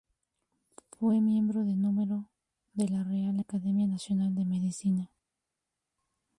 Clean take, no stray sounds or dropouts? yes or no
yes